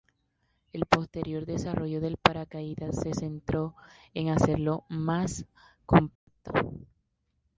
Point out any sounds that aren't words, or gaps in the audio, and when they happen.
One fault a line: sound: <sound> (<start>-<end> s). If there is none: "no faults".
sound: dropout (6.2-6.3 s)